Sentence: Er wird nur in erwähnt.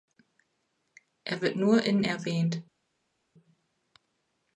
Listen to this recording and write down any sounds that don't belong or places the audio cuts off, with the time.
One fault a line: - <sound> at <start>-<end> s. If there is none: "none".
none